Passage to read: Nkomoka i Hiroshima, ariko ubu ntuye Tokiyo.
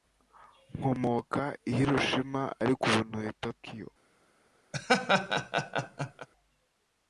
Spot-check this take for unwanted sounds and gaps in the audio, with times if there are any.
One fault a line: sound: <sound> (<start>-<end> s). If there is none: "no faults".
sound: laugh (4.7-6.3 s)